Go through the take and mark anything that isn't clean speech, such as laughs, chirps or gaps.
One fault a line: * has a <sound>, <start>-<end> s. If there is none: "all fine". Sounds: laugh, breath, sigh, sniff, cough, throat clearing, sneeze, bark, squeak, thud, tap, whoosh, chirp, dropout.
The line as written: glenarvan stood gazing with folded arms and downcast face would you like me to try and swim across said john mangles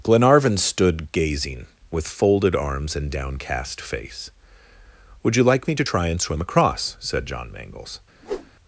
* has a whoosh, 8.2-8.5 s